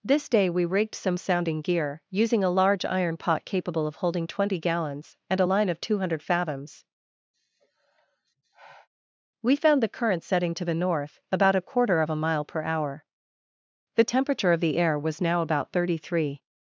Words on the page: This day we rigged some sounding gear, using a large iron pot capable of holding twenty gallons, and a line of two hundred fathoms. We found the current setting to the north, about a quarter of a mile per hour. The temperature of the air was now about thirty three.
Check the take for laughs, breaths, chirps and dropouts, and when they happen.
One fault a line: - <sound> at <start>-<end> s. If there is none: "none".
- sigh at 7.3-8.9 s